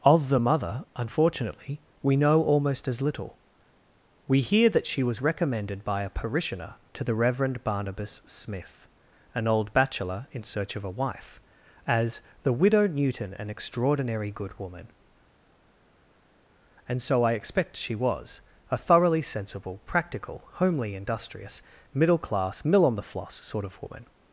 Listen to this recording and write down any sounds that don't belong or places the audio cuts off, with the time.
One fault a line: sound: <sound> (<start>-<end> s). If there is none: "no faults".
no faults